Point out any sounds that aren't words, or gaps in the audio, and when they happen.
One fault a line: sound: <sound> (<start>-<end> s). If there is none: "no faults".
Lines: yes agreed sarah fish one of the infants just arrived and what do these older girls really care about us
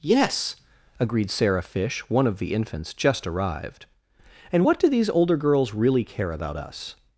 no faults